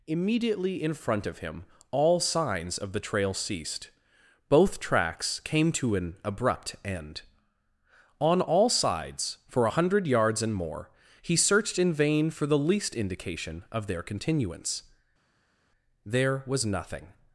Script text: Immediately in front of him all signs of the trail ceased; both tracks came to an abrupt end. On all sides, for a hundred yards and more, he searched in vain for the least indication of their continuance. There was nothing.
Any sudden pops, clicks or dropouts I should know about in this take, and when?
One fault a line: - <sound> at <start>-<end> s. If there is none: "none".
none